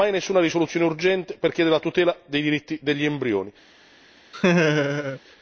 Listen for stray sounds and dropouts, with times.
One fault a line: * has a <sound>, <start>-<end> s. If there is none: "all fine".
* has a laugh, 4.3-5.2 s